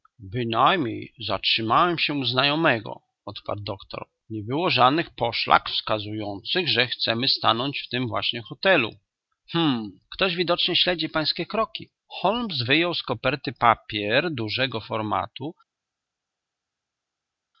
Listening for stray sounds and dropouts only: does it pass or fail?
pass